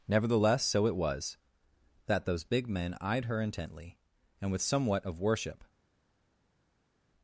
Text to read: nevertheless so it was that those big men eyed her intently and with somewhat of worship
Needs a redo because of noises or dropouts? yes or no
no